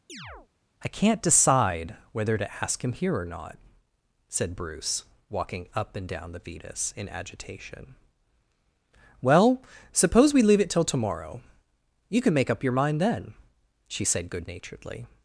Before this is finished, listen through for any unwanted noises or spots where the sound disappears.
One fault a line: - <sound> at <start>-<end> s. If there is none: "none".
- chirp at 0.1-0.5 s